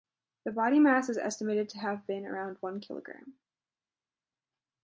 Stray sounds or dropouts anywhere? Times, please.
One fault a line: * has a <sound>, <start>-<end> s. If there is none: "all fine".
all fine